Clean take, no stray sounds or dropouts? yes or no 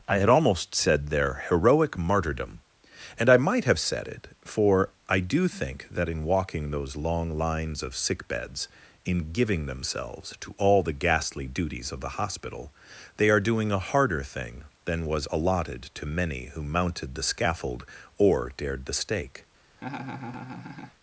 no